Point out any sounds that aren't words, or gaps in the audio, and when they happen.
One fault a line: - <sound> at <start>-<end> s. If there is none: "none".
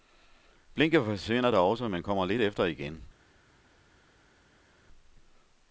none